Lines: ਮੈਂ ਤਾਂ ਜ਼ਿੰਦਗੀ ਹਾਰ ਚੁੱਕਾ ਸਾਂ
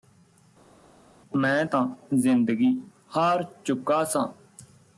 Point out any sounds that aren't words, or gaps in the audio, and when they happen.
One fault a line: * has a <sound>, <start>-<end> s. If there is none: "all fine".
all fine